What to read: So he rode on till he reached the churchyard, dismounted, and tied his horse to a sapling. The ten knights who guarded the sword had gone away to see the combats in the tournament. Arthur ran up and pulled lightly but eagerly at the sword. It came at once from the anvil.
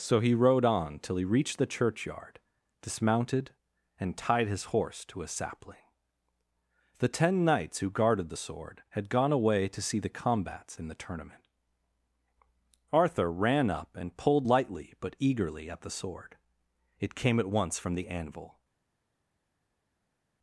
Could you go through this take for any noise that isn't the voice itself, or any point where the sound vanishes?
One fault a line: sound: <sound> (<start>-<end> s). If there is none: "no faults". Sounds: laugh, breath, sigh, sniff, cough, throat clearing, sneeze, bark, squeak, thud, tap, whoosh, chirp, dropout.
no faults